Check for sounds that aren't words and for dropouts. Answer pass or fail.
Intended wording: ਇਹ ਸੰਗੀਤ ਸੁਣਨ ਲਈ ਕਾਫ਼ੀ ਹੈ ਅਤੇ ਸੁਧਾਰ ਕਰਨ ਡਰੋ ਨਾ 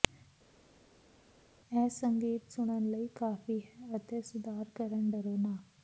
pass